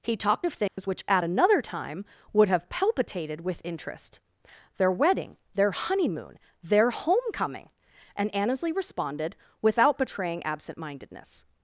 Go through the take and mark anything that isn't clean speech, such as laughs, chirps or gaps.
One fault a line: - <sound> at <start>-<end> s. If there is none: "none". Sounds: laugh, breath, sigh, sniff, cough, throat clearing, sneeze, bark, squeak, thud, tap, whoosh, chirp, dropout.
- dropout at 0.7-0.8 s